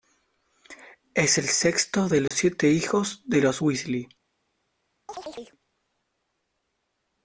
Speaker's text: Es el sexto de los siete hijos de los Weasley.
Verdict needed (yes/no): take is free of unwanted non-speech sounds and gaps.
no